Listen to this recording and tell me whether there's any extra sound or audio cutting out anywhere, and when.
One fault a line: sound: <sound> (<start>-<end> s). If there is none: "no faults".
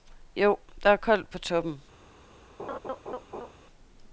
sound: laugh (2.6-3.5 s)